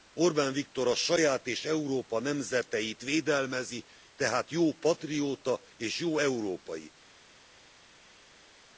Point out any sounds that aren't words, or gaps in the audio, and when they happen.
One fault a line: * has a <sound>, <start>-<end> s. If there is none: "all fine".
all fine